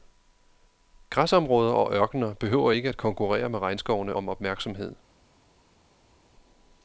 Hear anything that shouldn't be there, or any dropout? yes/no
no